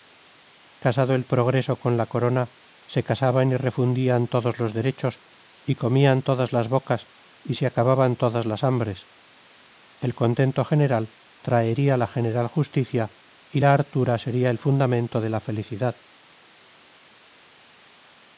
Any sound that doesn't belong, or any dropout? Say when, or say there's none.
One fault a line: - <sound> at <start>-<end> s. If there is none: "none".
none